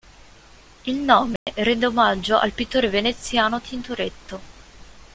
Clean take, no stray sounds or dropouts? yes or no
no